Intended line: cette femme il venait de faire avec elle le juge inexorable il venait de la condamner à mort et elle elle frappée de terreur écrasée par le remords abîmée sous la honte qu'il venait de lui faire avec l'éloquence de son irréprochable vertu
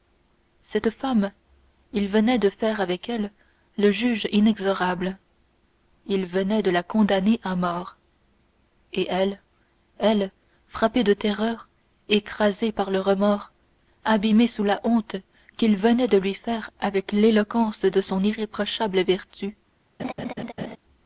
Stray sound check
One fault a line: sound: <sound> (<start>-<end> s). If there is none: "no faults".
sound: laugh (20.0-20.8 s)